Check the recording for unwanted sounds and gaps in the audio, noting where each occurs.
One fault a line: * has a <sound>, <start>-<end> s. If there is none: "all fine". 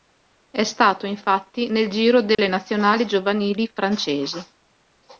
* has a dropout, 2.3-2.4 s